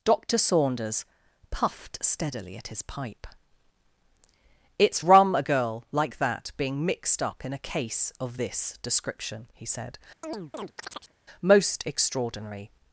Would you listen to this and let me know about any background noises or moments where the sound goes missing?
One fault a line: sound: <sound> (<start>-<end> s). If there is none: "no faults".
sound: chirp (10.2-11.1 s)